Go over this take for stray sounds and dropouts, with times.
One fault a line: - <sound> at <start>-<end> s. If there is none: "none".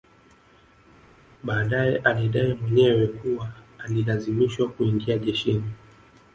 none